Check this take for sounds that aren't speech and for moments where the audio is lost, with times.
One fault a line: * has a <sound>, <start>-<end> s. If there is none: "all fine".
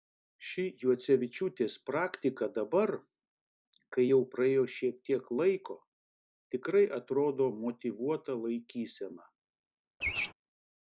* has a laugh, 10.0-10.3 s